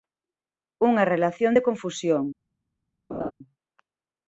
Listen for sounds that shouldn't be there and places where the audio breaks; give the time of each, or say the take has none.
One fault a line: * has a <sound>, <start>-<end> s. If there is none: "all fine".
* has a laugh, 3.1-3.3 s